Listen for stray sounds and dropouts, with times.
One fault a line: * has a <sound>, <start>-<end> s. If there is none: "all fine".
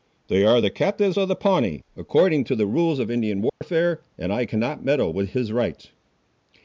* has a dropout, 3.5-3.6 s